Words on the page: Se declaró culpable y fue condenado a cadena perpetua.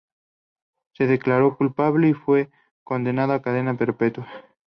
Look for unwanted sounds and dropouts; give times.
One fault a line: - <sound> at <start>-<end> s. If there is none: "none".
none